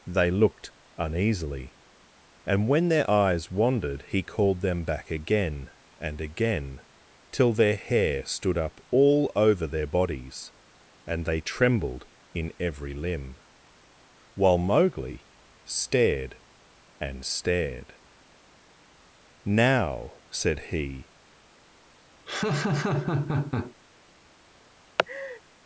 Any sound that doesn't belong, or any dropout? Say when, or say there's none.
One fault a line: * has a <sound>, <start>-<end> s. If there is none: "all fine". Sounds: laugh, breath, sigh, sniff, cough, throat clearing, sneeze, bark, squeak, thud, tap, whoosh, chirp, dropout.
* has a laugh, 22.3-23.7 s
* has a laugh, 25.0-25.4 s